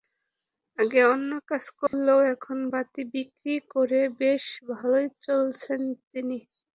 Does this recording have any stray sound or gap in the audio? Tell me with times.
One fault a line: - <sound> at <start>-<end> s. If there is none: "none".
- dropout at 1.9-1.9 s